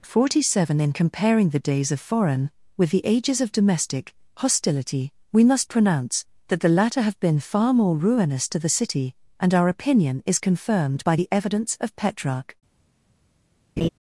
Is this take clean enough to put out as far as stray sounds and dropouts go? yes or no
no